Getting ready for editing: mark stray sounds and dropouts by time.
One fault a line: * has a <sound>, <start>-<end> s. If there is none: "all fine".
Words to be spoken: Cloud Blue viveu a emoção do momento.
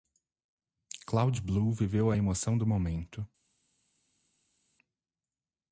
all fine